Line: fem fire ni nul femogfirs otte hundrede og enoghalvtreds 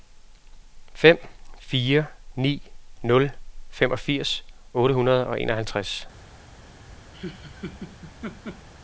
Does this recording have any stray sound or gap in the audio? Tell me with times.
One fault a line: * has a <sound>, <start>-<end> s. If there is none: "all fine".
* has a laugh, 7.1-8.7 s